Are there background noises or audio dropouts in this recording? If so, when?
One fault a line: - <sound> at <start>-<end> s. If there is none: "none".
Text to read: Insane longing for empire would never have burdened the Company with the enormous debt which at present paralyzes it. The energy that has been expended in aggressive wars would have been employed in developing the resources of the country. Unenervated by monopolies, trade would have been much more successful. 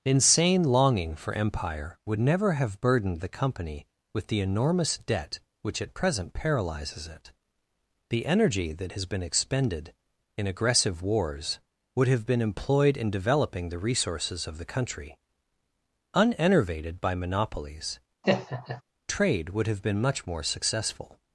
- laugh at 18.2-18.8 s